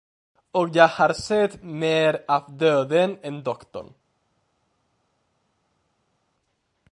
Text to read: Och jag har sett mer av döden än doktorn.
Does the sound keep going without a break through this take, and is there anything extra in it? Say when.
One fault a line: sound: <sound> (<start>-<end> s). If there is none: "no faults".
no faults